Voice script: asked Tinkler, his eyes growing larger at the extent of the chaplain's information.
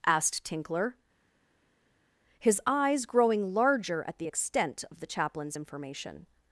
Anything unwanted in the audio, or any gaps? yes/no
no